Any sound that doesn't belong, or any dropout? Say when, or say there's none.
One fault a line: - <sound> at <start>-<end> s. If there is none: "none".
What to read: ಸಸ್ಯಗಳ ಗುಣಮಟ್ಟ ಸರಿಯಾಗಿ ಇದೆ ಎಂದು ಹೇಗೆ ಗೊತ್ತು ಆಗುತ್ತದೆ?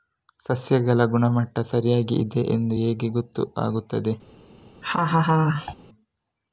- laugh at 4.8-5.7 s